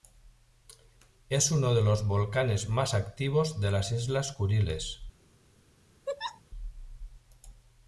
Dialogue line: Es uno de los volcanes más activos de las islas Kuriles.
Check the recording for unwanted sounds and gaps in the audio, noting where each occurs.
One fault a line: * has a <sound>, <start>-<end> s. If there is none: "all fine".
* has a laugh, 6.1-6.4 s